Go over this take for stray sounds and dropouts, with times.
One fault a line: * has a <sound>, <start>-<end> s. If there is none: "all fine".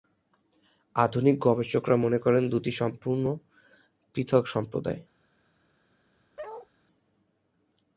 * has a bark, 6.4-6.7 s